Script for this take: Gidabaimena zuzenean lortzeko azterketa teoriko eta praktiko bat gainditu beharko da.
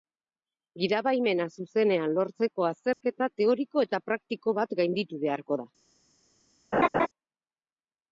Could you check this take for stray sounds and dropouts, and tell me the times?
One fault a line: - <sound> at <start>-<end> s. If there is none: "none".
- dropout at 2.9-3.0 s
- laugh at 6.7-7.1 s